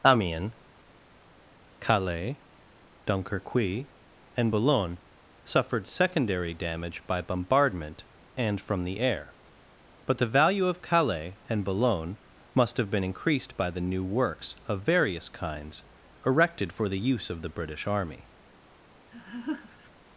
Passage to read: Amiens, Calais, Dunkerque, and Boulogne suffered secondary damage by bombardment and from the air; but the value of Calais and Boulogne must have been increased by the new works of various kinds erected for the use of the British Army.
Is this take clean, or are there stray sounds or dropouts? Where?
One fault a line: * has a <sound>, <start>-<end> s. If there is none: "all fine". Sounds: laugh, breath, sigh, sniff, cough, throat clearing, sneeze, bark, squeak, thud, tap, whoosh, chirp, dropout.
* has a laugh, 19.1-19.9 s